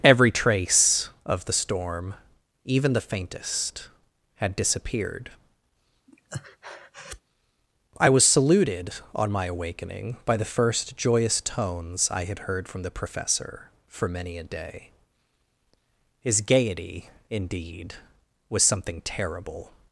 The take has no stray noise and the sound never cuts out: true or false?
false